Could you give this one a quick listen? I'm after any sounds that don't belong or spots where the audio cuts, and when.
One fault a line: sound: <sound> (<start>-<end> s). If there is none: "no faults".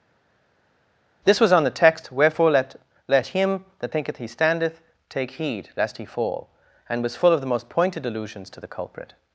no faults